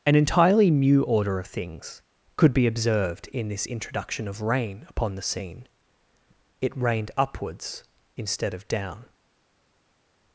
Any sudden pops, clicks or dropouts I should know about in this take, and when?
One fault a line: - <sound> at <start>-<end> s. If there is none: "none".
none